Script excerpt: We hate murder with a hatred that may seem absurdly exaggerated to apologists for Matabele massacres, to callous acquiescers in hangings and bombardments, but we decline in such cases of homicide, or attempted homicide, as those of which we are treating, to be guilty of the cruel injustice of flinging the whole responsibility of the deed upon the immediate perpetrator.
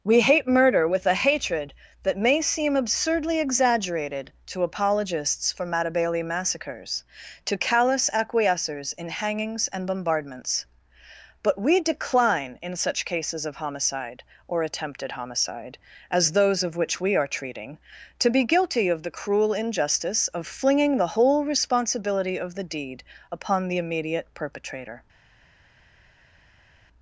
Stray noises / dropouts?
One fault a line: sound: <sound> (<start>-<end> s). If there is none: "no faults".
no faults